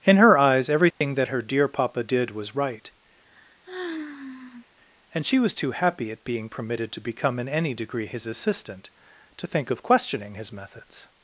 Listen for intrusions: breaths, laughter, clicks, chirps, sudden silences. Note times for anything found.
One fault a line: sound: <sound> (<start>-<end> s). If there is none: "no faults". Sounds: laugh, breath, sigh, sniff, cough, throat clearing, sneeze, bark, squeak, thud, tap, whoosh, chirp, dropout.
sound: dropout (0.9-1.0 s)
sound: sigh (3.3-4.7 s)